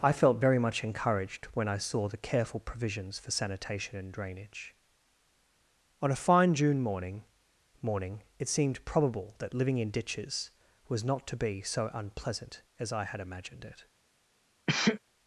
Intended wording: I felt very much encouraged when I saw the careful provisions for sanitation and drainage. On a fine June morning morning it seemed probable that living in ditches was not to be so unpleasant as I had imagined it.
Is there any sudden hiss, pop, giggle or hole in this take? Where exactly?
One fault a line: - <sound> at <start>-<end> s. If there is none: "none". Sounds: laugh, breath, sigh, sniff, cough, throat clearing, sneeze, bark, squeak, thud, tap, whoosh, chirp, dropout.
- sneeze at 14.7-15.0 s